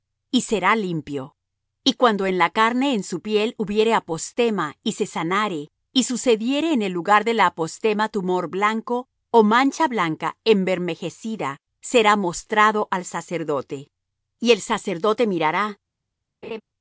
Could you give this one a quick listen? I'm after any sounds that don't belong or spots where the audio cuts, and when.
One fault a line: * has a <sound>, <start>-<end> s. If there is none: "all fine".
* has a laugh, 16.4-16.6 s